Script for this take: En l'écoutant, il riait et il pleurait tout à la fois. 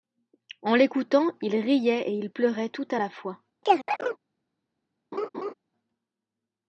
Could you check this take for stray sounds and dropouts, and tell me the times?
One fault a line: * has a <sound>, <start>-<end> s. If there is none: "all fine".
* has a chirp, 3.6-4.2 s
* has a laugh, 5.1-5.5 s